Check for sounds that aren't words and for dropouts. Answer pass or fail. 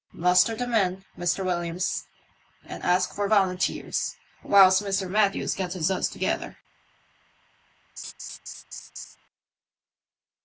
fail